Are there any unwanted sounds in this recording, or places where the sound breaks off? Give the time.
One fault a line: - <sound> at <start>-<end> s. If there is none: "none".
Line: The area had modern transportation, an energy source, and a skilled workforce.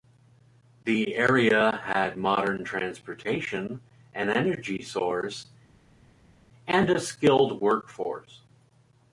none